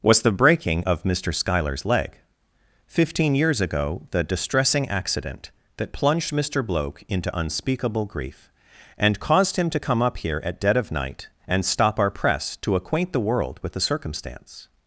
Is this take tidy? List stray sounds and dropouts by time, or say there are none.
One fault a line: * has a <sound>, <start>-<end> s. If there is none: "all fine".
all fine